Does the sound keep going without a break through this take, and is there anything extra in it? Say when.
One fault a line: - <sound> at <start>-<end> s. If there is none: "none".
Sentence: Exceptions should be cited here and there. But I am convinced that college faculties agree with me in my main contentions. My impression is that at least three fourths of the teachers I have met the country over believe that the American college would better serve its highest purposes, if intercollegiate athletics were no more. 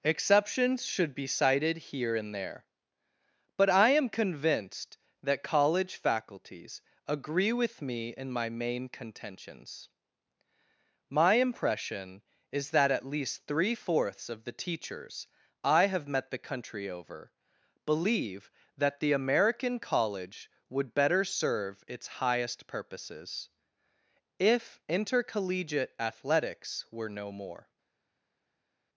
none